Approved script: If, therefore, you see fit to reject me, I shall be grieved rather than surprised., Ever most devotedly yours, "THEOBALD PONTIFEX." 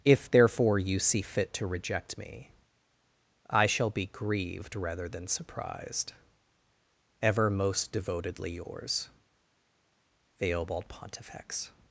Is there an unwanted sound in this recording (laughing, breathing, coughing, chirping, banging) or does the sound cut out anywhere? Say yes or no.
no